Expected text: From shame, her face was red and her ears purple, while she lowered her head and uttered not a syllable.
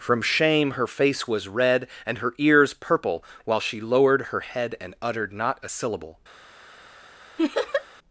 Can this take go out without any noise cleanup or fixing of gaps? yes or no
no